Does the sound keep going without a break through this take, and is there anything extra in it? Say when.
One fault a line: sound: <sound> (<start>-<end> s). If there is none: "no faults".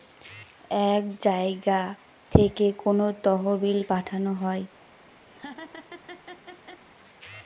sound: laugh (5.3-6.8 s)